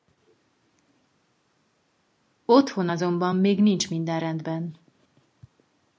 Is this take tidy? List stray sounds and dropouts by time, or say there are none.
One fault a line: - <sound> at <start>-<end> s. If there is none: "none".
none